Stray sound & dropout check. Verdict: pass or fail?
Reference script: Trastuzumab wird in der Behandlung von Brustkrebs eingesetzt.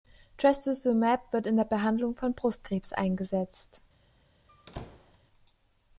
fail